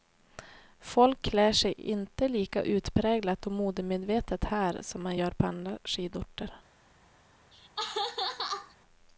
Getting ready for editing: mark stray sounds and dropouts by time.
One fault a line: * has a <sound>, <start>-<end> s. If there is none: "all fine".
* has a laugh, 7.5-8.7 s